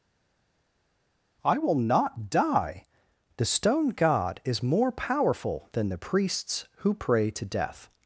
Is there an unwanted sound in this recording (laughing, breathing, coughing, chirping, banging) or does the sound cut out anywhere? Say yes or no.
no